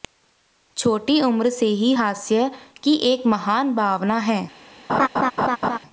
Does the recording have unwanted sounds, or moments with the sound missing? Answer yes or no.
yes